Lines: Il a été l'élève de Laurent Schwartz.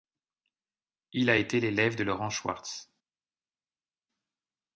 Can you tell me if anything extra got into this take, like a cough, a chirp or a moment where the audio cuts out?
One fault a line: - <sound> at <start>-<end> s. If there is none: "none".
none